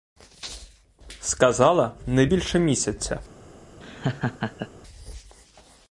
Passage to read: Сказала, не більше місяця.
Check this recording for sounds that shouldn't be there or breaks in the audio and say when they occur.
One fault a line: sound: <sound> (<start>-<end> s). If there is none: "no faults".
sound: laugh (3.8-4.7 s)